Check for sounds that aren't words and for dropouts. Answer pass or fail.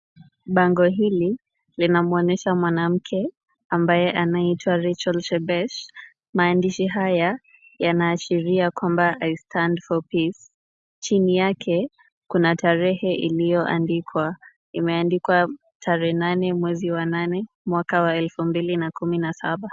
pass